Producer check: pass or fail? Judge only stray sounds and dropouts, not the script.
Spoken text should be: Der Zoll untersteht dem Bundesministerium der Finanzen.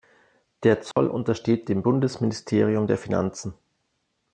fail